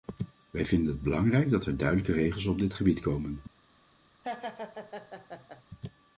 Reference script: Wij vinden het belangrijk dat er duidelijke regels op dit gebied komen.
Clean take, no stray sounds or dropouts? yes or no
no